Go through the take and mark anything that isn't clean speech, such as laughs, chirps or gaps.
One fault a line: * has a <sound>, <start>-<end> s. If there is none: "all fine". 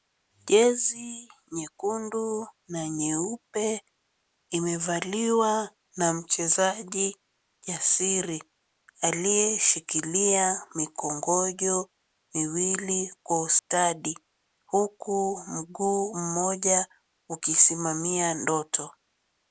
* has a dropout, 13.6-13.7 s